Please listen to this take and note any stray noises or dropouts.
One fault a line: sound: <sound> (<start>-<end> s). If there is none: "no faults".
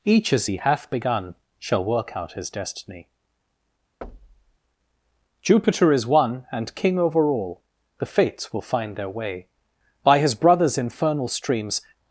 sound: thud (4.0-4.6 s)